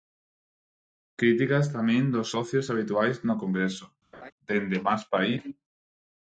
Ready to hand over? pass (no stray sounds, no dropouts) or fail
fail